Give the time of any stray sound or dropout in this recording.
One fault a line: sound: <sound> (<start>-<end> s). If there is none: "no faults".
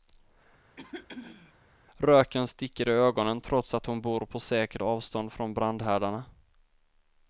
sound: throat clearing (0.8-1.5 s)